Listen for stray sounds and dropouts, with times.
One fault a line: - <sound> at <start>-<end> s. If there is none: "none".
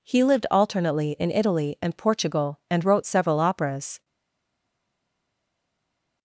none